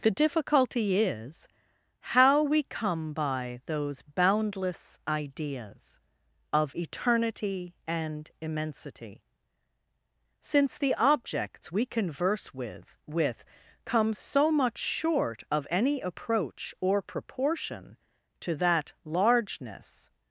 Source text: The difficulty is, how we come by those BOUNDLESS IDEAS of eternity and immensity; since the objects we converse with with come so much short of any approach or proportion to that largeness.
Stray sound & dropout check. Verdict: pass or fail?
pass